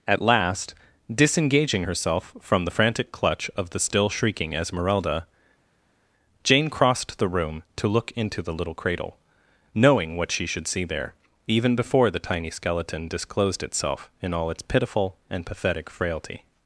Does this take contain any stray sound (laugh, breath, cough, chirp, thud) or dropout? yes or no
no